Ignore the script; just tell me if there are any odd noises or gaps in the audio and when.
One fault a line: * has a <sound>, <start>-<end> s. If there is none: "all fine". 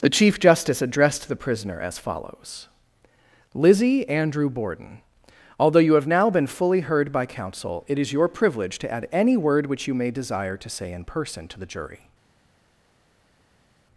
all fine